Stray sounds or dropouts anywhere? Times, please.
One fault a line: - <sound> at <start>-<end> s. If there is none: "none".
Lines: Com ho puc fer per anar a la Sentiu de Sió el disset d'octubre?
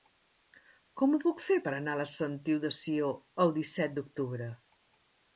none